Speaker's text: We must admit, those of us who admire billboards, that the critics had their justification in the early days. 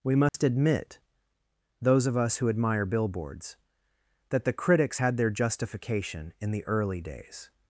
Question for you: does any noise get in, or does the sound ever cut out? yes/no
yes